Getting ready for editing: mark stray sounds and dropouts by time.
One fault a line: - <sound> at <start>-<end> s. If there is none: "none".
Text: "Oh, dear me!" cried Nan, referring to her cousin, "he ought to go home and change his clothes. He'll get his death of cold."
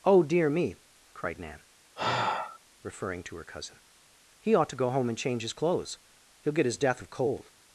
- sigh at 2.0-2.6 s